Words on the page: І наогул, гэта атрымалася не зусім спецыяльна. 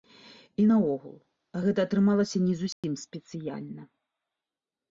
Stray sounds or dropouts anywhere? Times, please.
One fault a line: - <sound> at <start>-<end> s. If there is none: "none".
- dropout at 2.7-2.8 s